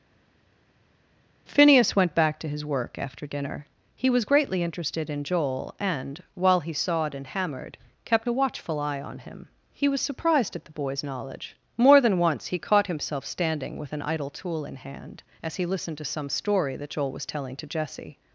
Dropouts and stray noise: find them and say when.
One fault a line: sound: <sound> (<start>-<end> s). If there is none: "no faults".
no faults